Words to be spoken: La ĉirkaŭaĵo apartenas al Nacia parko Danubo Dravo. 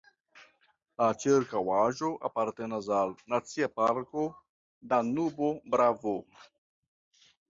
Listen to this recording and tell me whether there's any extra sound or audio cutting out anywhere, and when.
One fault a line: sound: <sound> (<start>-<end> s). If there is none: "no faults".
no faults